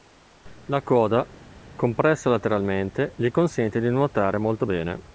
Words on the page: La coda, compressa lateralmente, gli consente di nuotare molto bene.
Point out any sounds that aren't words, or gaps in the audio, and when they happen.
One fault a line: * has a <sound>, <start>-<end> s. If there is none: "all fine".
all fine